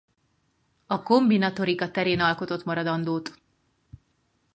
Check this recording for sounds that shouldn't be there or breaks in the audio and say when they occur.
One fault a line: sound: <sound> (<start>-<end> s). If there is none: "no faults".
no faults